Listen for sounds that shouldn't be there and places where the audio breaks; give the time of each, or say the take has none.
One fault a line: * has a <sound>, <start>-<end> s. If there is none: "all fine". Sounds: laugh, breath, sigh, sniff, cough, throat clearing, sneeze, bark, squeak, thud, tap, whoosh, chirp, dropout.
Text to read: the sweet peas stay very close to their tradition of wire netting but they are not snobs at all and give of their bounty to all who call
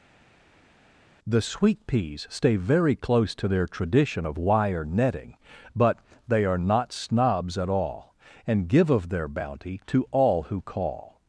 all fine